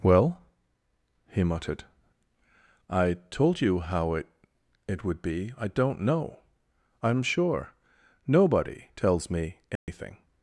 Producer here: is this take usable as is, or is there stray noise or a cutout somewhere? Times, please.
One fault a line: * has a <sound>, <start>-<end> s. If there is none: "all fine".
* has a dropout, 9.8-9.9 s